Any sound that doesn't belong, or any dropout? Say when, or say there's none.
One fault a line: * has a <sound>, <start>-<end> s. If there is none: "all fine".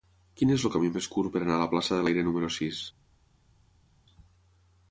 all fine